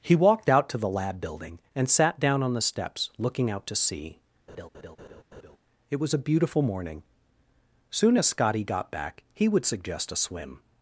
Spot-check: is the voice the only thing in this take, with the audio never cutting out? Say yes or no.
no